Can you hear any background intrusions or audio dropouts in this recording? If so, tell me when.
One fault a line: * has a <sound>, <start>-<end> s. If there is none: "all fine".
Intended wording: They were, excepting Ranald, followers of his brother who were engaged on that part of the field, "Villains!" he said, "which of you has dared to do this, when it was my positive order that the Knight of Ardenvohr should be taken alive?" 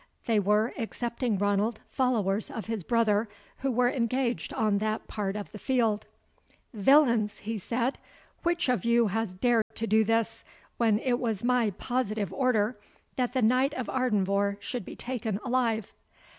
* has a dropout, 9.6-9.7 s